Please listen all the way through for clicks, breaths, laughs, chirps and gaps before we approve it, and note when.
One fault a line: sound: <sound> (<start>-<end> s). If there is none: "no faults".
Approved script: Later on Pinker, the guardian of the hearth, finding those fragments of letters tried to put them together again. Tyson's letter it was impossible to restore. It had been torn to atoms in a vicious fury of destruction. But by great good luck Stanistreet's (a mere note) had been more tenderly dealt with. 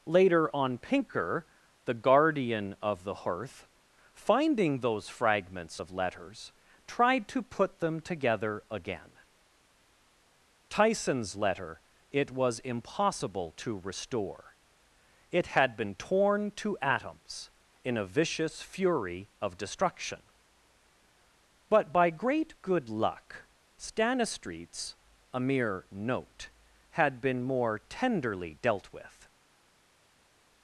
no faults